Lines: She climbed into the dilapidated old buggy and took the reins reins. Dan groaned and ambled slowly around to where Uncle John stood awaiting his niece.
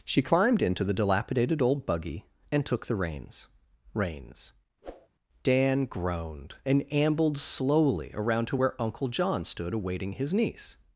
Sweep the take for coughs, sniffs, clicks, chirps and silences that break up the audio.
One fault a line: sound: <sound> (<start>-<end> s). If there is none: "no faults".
sound: whoosh (4.8-5.1 s)